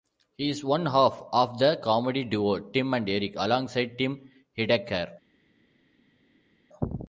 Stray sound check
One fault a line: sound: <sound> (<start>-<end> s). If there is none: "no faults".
no faults